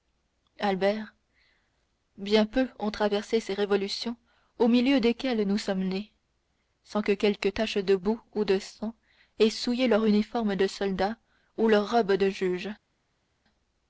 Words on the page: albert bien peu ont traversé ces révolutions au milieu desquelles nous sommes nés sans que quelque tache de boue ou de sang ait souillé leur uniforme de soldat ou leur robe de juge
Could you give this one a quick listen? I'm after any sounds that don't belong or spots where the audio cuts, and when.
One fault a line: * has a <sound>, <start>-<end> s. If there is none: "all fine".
all fine